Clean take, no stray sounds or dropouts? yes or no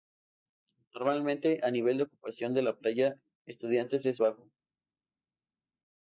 yes